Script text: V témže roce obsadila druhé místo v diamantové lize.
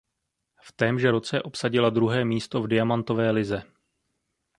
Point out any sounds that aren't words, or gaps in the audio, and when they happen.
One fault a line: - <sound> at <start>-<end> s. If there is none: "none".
none